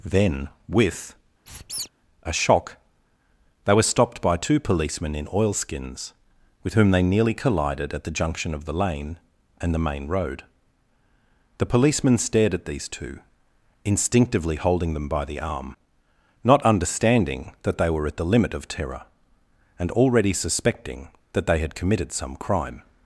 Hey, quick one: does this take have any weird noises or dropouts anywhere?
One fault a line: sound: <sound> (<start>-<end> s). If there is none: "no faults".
sound: squeak (1.5-1.9 s)